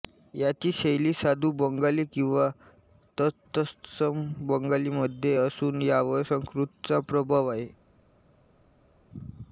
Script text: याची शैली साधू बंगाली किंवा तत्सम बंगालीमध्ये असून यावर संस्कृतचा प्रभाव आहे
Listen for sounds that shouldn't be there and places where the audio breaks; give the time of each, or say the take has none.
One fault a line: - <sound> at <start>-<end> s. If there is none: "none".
none